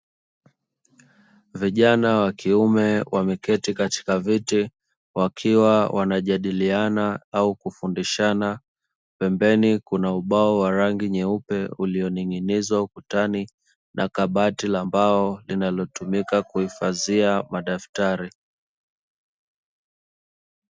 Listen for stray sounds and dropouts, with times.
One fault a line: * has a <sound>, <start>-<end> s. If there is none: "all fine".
all fine